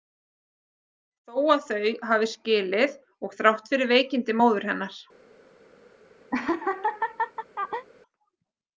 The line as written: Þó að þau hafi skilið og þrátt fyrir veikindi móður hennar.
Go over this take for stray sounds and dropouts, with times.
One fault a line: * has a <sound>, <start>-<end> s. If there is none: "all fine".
* has a laugh, 6.3-7.9 s